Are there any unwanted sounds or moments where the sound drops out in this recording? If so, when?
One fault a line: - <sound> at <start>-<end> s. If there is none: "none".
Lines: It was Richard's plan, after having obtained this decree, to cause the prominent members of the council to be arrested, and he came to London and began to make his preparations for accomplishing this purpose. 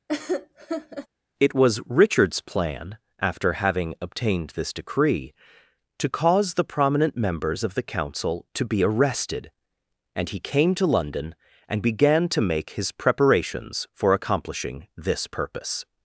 - laugh at 0.1-1.1 s